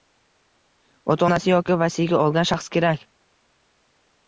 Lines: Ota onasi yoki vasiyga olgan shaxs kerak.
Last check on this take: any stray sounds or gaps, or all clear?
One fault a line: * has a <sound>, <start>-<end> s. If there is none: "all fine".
all fine